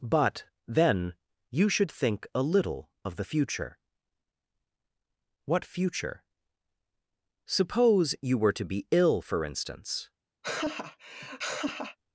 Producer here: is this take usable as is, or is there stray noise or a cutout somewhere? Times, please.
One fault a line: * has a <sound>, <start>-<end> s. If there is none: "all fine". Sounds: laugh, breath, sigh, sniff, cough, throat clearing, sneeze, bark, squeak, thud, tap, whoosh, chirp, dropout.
* has a laugh, 10.4-12.0 s